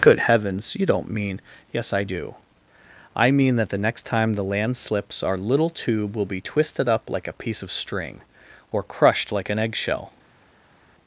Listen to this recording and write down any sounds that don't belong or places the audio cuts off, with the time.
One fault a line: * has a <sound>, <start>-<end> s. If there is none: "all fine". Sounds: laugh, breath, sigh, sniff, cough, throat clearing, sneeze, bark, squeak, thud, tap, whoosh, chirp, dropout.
all fine